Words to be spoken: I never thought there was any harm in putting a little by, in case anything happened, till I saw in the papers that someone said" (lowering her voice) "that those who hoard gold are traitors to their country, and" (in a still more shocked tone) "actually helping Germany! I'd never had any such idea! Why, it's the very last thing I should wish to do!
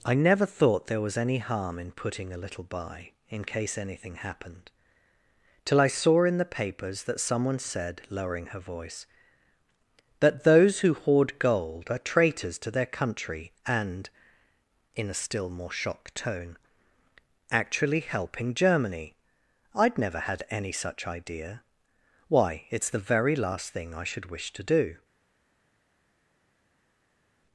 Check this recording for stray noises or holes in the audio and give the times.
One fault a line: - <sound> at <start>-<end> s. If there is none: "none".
none